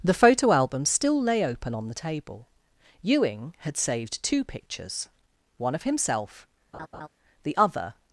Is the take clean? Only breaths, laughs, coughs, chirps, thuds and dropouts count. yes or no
no